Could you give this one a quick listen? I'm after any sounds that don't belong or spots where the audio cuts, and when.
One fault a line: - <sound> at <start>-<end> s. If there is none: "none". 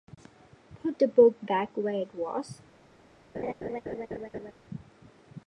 - laugh at 3.3-4.5 s